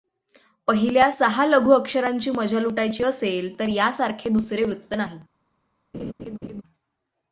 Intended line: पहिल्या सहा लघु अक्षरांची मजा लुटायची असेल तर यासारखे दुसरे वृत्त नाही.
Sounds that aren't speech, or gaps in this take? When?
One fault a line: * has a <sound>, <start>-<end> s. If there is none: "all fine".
* has a laugh, 5.9-6.6 s